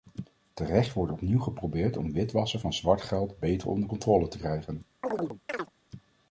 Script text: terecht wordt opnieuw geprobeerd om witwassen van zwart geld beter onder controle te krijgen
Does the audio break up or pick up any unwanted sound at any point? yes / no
yes